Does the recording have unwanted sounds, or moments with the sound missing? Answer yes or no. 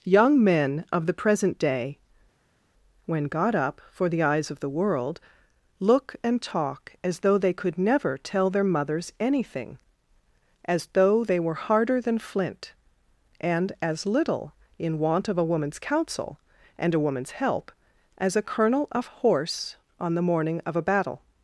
no